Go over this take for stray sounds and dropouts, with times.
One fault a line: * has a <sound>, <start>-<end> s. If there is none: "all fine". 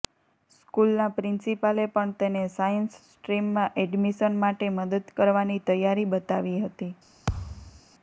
* has a thud, 7.3-7.8 s